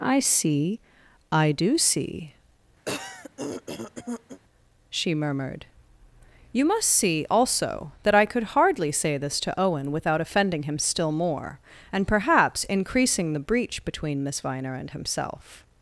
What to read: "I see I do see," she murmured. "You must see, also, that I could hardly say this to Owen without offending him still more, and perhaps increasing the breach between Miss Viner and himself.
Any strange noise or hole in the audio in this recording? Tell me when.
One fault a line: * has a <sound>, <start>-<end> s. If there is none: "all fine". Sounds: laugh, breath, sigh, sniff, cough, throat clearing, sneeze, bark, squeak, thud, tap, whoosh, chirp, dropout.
* has a throat clearing, 2.8-4.4 s